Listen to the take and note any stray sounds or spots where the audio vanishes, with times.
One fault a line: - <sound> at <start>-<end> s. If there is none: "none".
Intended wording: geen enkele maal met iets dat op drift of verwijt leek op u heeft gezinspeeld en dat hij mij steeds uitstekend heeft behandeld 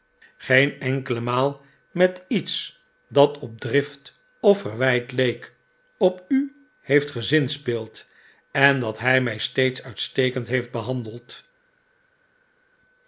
none